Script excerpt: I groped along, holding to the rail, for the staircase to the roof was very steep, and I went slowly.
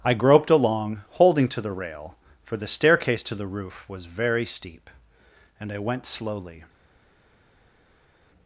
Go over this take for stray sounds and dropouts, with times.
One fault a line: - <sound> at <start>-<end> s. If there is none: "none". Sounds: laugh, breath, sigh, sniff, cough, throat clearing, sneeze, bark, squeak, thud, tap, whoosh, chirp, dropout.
none